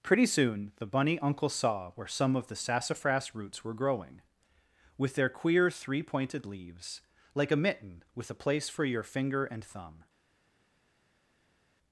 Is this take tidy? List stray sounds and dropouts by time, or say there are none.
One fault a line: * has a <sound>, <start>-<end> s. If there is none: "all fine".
all fine